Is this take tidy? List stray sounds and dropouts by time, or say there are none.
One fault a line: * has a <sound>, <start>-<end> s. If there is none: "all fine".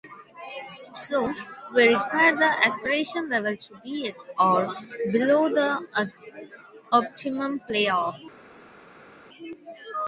all fine